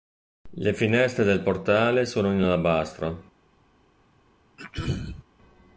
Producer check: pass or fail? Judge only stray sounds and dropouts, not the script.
fail